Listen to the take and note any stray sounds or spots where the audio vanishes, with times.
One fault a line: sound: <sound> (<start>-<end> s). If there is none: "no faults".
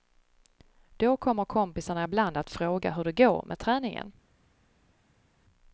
no faults